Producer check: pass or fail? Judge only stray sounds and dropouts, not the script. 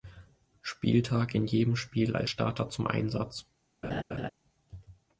fail